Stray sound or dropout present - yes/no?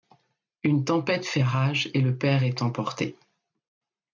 no